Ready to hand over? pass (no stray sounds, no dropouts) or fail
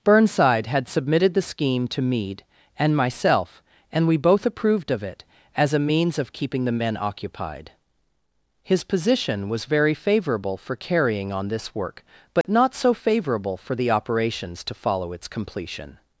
fail